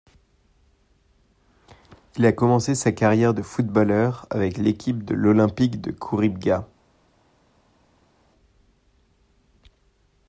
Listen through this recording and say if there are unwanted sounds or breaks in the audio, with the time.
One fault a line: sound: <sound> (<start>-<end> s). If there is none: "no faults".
no faults